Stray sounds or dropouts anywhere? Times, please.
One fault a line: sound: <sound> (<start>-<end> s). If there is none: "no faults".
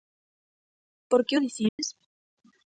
sound: dropout (1.7-1.8 s)